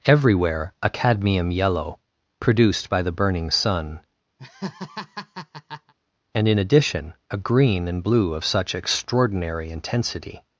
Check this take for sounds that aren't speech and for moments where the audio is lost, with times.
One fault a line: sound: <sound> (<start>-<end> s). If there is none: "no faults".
sound: laugh (4.4-5.9 s)